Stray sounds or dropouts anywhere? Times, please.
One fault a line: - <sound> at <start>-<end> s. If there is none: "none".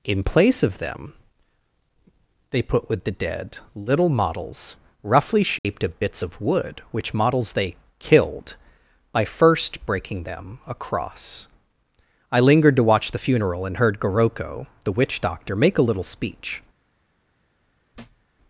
- dropout at 5.6-5.6 s
- thud at 17.9-18.3 s